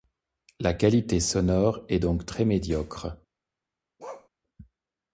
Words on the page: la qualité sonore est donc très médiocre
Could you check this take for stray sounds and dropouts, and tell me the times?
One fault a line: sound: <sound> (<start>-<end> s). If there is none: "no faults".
sound: bark (4.0-4.3 s)